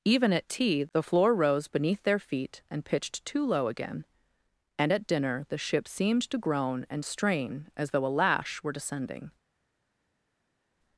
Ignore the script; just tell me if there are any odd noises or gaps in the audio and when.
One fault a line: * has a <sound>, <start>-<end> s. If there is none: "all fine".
all fine